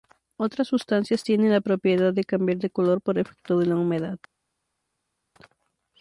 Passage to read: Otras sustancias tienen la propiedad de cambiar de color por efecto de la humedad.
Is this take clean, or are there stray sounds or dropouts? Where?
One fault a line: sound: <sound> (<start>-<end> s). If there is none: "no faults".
no faults